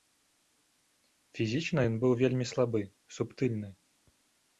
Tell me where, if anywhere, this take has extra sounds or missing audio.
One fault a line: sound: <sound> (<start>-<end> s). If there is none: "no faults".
no faults